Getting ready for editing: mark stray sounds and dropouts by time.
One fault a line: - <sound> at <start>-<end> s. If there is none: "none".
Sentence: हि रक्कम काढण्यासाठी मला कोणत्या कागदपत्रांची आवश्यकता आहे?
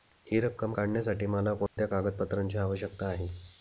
- dropout at 1.7-1.8 s